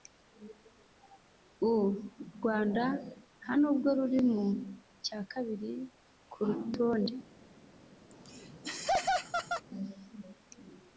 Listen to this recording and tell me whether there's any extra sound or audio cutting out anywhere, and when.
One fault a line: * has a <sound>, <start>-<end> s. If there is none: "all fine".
* has a laugh, 8.1-9.7 s